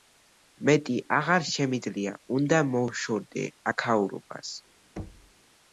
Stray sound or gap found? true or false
true